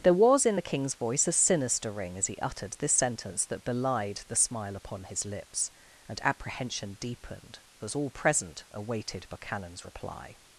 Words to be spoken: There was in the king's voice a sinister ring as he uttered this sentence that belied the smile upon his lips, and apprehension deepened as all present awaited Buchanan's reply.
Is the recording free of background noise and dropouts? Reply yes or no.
yes